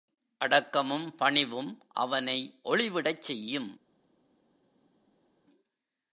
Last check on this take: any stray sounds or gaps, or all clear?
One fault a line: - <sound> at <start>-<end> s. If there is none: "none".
none